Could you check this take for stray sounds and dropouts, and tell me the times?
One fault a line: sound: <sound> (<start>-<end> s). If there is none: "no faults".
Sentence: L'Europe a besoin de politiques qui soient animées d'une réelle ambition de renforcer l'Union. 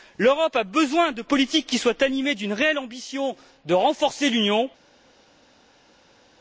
no faults